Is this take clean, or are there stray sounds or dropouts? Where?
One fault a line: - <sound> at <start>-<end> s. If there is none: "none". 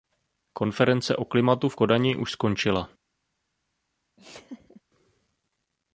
- laugh at 4.2-4.8 s